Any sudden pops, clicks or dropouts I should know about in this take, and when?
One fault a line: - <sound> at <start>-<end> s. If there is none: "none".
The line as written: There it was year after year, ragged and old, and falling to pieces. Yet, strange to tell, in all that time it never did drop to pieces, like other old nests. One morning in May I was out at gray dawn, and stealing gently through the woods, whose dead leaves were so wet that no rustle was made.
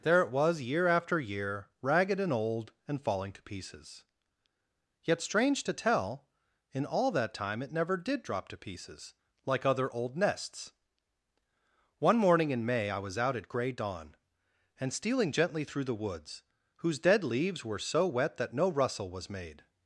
none